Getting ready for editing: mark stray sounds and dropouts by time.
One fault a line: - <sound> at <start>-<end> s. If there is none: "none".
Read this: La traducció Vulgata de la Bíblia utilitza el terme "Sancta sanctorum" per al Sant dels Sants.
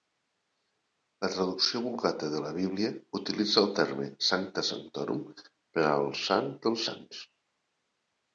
none